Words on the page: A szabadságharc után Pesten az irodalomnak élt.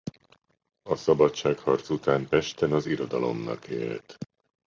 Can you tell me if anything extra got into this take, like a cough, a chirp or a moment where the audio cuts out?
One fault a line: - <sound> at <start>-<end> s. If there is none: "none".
none